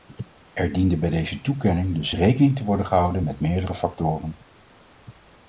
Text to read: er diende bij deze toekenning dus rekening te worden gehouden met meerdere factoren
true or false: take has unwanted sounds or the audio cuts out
false